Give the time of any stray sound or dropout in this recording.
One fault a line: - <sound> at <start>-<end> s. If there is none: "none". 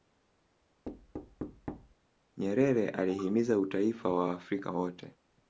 - thud at 0.8-1.9 s